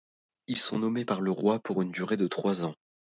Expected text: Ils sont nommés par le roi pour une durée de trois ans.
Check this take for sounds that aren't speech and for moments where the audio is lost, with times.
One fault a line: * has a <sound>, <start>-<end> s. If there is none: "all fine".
all fine